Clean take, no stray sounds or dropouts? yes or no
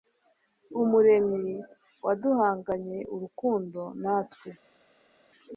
yes